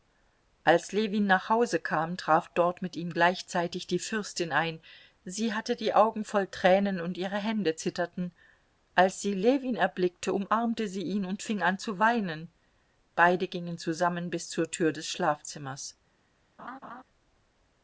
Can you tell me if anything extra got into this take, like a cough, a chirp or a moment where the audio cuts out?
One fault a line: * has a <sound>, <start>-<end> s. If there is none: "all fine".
* has a laugh, 16.6-17.0 s